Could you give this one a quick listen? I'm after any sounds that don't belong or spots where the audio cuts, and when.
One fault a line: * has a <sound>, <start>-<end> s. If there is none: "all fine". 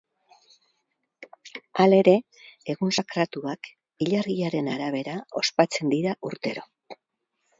all fine